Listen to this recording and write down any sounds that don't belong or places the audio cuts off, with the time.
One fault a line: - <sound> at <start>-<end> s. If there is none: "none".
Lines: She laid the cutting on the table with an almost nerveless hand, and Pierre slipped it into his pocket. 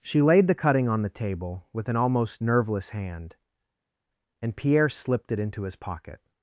none